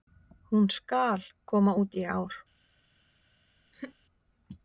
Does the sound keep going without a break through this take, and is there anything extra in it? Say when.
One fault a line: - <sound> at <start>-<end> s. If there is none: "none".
- laugh at 3.7-4.0 s